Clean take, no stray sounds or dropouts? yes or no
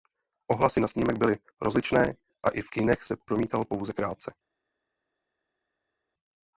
yes